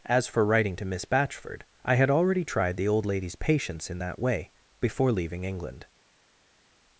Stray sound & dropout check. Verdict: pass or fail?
pass